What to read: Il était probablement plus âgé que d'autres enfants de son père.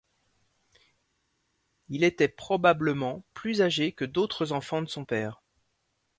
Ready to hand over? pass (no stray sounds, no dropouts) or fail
pass